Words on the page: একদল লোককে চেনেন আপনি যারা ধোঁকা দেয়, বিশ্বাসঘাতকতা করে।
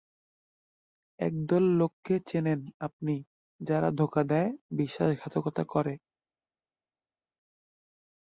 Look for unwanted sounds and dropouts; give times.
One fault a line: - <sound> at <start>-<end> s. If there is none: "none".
none